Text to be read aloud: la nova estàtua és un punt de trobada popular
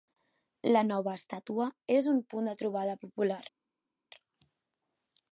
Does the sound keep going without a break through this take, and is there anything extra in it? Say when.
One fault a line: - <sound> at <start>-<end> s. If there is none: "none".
none